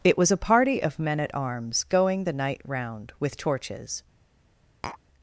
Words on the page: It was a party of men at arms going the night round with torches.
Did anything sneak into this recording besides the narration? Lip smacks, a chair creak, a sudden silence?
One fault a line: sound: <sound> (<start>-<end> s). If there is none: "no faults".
sound: tap (4.8-5.0 s)